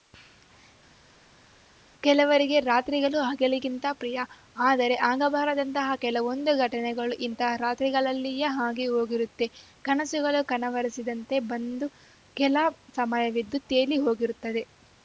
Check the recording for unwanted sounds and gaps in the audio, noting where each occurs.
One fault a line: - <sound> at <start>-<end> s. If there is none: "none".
none